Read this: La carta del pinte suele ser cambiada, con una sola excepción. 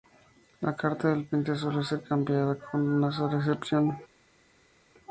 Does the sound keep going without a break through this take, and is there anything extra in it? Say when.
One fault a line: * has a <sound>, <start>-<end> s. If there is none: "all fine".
all fine